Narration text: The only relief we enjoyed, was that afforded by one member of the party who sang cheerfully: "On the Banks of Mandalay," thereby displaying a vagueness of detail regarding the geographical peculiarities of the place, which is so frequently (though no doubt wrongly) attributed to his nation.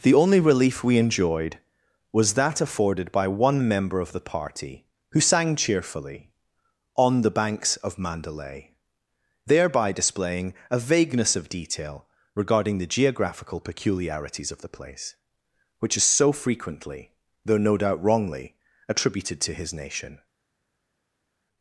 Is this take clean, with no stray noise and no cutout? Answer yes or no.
yes